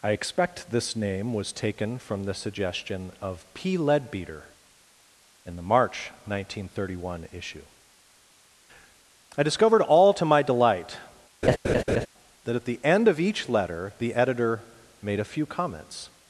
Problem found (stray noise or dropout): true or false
true